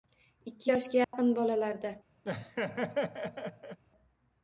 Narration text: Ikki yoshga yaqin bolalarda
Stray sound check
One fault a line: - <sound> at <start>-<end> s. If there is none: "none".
- dropout at 1.0-1.1 s
- laugh at 2.2-3.8 s